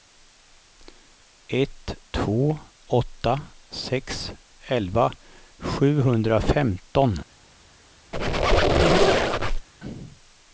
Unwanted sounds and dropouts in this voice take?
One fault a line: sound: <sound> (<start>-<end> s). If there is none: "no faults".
sound: squeak (8.1-9.7 s)